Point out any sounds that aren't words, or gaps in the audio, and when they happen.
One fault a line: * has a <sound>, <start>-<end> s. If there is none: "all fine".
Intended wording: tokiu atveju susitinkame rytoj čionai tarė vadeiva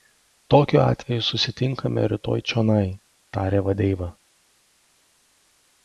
all fine